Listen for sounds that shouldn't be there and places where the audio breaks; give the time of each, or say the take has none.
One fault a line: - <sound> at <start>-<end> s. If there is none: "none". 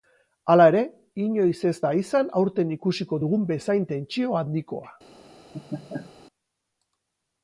- laugh at 5.5-6.1 s